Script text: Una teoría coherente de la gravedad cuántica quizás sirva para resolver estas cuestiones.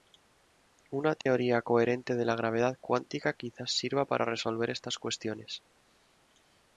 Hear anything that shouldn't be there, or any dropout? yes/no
yes